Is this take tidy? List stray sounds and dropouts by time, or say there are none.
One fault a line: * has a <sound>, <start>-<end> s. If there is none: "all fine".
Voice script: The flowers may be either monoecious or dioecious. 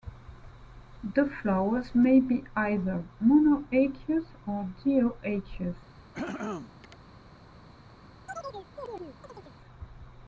* has a throat clearing, 6.1-7.0 s
* has a chirp, 8.3-9.6 s